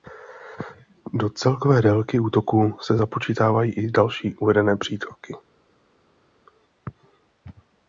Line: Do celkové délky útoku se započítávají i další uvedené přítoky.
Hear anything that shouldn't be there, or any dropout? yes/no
no